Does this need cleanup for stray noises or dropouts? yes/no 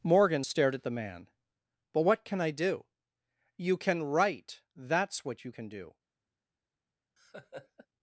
yes